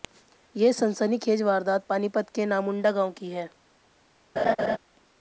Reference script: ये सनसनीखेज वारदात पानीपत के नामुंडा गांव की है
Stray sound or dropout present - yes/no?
yes